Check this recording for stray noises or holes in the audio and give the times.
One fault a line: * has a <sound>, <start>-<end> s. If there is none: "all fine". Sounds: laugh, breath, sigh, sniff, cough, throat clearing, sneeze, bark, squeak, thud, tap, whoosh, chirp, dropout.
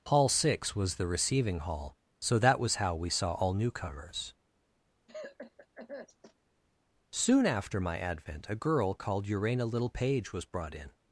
* has a cough, 5.1-6.3 s